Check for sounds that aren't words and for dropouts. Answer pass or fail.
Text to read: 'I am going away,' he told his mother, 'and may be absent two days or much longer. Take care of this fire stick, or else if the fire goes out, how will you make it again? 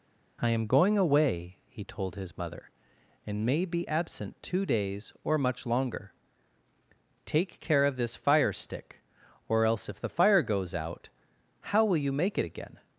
pass